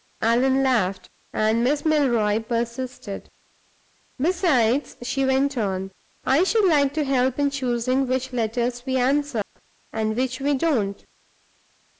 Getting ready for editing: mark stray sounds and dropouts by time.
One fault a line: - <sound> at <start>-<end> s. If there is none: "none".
- dropout at 9.4-9.6 s